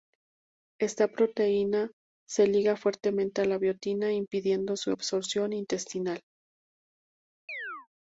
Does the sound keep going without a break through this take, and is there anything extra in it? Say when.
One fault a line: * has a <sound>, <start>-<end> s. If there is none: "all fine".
* has a chirp, 7.5-7.9 s